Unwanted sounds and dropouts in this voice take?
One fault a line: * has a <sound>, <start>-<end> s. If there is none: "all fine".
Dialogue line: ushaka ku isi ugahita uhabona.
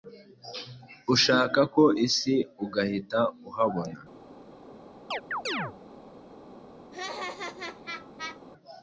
* has a chirp, 5.1-5.7 s
* has a laugh, 6.9-8.4 s